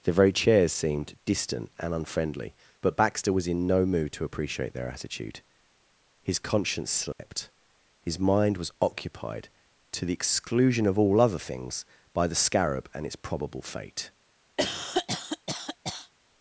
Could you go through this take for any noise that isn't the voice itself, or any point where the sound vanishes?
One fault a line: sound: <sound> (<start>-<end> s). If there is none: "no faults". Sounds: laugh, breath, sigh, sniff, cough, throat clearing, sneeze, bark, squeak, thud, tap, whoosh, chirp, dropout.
sound: dropout (7.1-7.2 s)
sound: cough (14.6-16.1 s)